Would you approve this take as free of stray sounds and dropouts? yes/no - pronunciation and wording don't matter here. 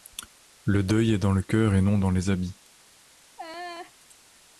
no